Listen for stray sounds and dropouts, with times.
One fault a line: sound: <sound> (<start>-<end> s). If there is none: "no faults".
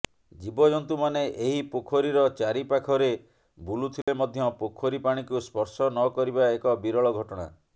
sound: dropout (4.0-4.1 s)